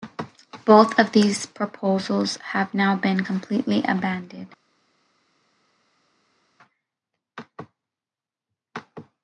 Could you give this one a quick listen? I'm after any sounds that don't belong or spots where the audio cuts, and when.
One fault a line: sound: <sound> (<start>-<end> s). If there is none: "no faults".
no faults